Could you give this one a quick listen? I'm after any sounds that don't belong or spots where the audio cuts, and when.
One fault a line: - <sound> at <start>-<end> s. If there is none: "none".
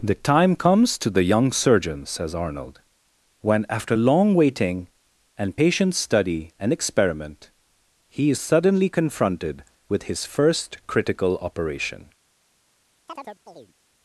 - chirp at 13.1-13.7 s